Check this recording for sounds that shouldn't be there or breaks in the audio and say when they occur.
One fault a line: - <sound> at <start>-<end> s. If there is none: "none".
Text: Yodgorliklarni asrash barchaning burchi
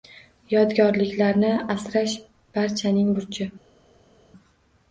none